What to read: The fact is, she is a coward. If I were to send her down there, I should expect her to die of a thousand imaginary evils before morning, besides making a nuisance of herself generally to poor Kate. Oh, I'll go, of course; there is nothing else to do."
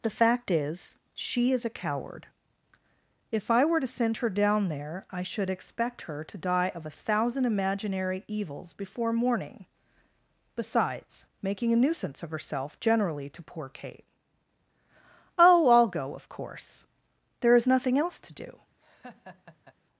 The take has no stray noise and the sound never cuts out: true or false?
false